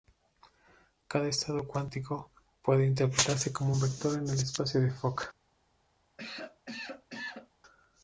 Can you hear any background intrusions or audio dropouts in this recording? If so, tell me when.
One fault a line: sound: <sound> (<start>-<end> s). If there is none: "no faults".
sound: cough (6.2-7.5 s)